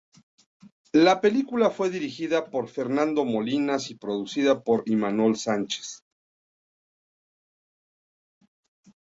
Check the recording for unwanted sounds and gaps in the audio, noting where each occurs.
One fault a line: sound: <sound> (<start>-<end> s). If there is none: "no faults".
no faults